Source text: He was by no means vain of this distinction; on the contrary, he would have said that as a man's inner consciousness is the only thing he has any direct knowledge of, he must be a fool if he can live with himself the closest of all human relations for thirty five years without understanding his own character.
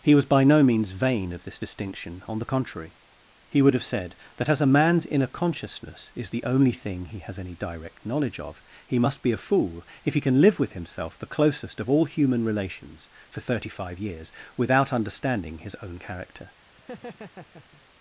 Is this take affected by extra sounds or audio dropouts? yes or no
yes